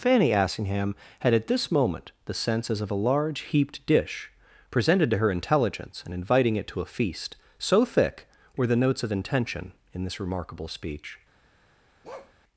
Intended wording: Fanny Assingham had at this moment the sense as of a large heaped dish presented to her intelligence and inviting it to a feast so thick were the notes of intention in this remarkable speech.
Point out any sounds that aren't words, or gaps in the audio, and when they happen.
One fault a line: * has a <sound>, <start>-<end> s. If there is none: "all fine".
* has a bark, 12.0-12.3 s